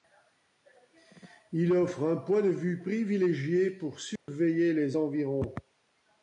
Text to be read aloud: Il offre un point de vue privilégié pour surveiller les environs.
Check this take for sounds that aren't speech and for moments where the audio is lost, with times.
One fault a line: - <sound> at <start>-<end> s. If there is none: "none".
- dropout at 4.2-4.3 s